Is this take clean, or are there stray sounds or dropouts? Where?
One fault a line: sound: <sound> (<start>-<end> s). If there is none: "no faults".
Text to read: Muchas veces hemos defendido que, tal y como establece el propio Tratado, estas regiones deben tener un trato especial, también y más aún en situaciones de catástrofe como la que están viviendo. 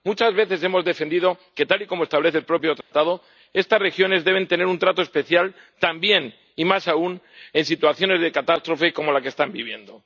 sound: dropout (2.8-2.9 s)